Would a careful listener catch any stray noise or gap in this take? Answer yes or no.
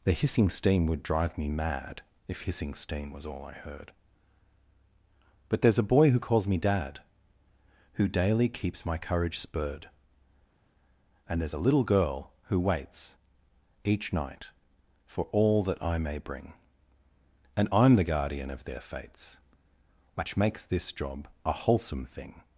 no